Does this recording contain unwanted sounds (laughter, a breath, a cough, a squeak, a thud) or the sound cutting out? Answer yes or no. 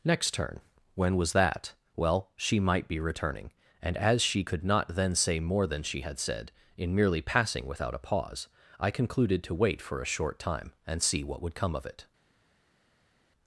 no